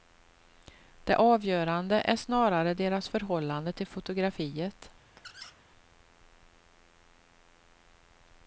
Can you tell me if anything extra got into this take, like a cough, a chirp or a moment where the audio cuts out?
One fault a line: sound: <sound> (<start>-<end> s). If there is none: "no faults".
sound: squeak (5.2-5.6 s)